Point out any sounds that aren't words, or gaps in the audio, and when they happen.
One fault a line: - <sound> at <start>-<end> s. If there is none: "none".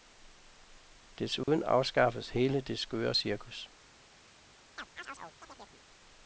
- dropout at 1.4-1.5 s
- chirp at 4.8-5.8 s